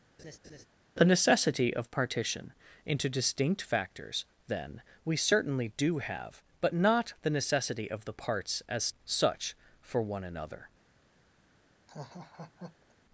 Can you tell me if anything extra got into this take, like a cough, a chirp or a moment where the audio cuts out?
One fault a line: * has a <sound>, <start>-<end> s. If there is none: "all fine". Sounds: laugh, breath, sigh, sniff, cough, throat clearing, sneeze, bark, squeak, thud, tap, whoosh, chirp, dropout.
* has a laugh, 0.2-0.7 s
* has a laugh, 11.9-12.9 s